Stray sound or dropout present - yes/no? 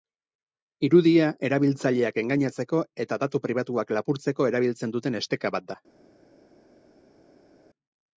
no